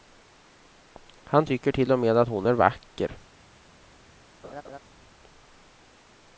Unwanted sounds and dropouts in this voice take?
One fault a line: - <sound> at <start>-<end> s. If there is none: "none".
- laugh at 4.4-4.8 s